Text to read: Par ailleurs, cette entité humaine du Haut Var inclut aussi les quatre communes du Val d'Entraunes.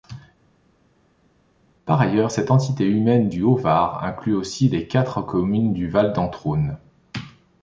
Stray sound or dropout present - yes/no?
no